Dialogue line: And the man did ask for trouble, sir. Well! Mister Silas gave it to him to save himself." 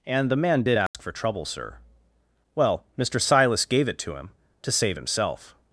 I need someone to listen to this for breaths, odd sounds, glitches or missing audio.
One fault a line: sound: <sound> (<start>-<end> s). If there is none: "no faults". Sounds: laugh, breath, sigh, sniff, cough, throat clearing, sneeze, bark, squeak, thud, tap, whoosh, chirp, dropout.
sound: dropout (0.9-0.9 s)